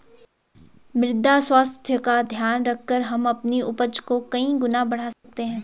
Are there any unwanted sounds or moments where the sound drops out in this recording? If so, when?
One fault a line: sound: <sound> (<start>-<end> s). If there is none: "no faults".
sound: dropout (5.1-5.2 s)